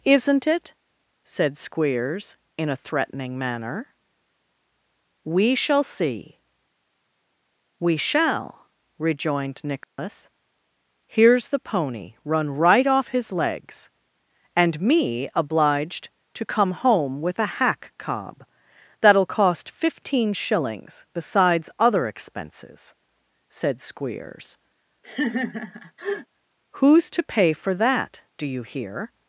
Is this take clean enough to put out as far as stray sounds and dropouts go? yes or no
no